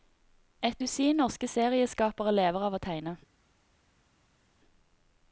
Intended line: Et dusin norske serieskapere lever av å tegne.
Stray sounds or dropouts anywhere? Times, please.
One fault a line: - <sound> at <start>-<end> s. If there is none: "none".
none